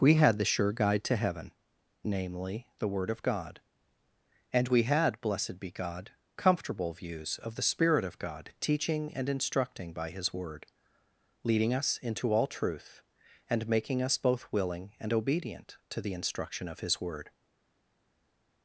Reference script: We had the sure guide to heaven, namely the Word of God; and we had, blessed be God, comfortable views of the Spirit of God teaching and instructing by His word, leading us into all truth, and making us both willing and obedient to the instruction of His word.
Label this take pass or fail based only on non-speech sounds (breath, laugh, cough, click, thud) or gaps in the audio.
pass